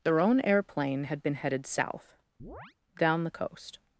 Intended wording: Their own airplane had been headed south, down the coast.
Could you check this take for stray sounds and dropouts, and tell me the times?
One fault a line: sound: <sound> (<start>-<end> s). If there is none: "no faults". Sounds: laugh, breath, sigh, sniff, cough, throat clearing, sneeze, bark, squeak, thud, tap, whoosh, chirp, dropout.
sound: chirp (2.4-2.7 s)